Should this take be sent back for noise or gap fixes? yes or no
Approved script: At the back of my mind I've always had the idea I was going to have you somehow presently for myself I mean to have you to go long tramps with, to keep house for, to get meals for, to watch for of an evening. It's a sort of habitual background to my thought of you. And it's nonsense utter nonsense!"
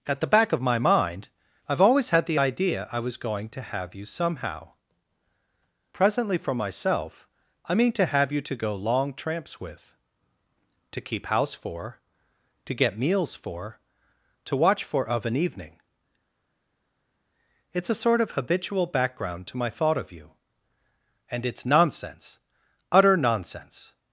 no